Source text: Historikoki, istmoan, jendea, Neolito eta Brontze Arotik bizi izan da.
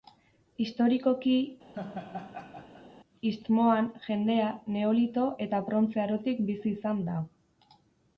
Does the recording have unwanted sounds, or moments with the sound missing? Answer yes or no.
yes